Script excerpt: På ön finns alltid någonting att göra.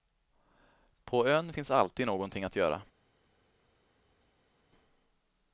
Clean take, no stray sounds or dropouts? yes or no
yes